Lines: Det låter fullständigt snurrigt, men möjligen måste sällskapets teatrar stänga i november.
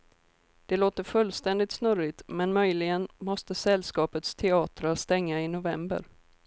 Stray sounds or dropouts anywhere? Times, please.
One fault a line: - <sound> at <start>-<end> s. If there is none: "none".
none